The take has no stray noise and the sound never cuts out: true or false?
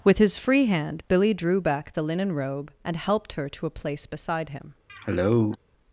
false